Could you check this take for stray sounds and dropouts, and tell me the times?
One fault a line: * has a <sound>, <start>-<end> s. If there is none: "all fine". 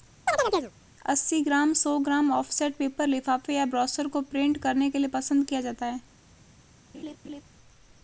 * has a chirp, 0.3-0.7 s
* has a laugh, 6.9-7.4 s